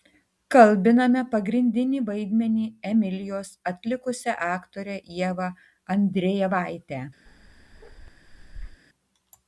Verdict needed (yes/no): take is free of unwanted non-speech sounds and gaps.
no